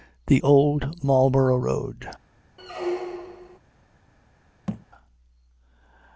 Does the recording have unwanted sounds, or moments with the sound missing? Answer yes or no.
yes